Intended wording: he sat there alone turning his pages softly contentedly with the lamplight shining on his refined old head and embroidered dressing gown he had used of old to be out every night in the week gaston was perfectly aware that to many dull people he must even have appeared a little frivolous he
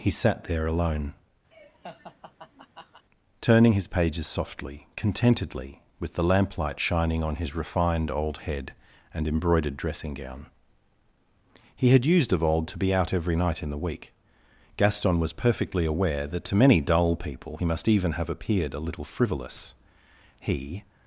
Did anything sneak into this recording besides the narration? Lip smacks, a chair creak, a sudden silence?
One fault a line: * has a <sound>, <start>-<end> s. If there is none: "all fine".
* has a laugh, 1.5-3.0 s